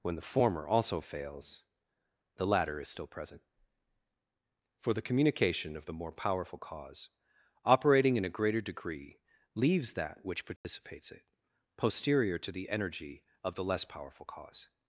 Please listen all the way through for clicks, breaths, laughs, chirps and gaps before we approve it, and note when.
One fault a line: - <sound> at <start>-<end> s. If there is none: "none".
- dropout at 10.6-10.6 s